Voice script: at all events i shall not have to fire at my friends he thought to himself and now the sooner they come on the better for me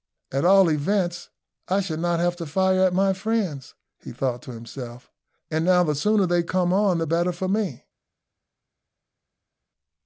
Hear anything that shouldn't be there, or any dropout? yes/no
no